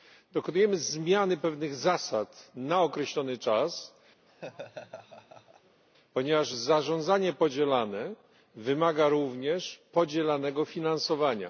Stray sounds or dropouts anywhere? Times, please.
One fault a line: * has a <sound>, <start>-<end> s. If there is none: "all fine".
* has a laugh, 4.3-5.8 s